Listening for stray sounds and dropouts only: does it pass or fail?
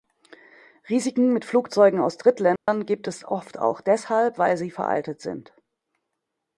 fail